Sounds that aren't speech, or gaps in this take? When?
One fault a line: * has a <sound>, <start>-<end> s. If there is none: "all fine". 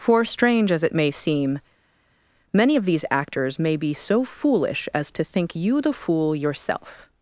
all fine